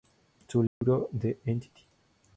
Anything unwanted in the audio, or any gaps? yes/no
yes